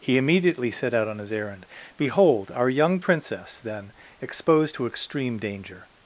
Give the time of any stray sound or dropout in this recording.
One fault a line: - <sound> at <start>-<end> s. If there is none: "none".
none